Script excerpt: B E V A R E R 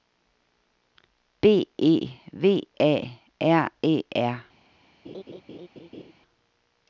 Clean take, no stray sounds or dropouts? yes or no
no